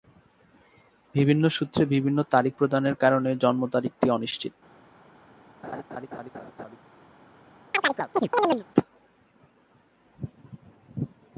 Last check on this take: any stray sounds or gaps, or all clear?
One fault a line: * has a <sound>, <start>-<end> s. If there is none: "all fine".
* has a laugh, 5.6-6.8 s
* has a chirp, 7.7-8.6 s